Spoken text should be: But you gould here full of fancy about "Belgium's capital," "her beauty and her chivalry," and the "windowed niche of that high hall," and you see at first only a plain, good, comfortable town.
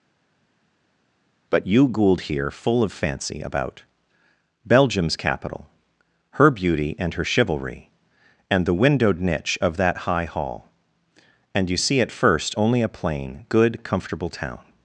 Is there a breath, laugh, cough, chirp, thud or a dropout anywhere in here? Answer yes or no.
no